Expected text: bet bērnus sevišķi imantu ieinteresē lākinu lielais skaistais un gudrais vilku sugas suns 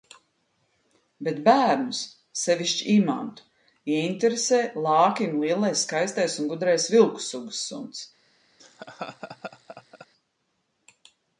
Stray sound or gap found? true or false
true